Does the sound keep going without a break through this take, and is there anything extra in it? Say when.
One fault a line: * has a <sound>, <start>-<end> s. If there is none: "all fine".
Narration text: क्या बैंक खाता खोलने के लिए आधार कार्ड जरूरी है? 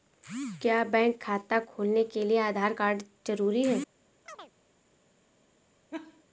* has a chirp, 4.3-4.5 s
* has a laugh, 5.9-6.2 s